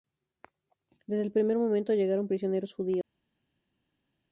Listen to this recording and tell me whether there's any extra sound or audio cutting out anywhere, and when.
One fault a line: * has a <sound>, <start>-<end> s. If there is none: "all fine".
all fine